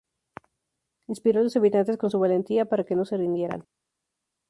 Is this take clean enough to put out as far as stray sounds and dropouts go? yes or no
yes